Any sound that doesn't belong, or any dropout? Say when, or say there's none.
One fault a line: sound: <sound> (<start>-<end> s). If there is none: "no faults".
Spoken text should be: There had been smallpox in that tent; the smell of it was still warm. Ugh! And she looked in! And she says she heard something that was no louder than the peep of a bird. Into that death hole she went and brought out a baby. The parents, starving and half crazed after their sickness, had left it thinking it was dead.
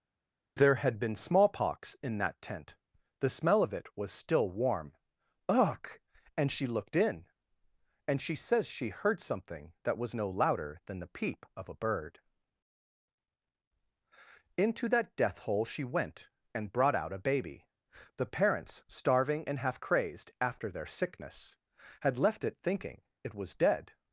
no faults